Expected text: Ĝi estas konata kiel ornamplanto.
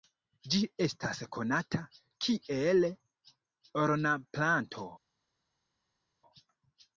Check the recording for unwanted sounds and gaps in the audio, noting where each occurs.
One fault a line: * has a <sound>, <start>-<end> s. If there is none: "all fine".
all fine